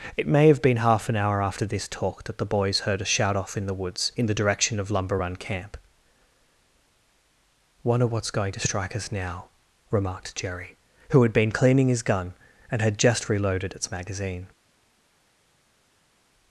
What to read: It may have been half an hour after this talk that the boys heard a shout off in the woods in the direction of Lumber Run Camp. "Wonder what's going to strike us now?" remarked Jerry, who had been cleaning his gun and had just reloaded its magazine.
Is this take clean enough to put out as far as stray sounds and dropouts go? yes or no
yes